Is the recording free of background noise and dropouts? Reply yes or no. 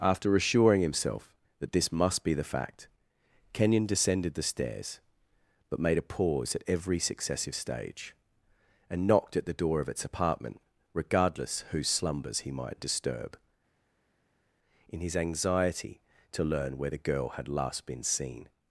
yes